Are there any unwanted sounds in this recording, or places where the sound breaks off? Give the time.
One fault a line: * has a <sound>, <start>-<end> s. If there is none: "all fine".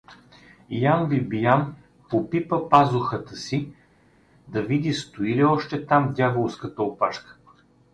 all fine